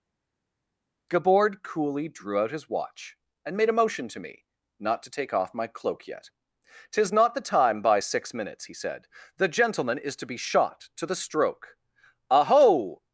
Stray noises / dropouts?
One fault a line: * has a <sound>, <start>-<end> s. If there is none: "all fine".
all fine